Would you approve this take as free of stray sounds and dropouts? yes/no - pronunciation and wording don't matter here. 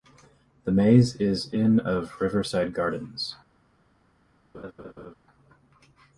no